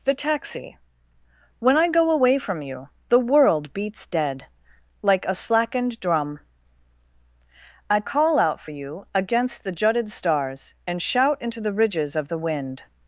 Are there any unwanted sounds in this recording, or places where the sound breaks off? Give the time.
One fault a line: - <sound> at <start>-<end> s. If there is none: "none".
none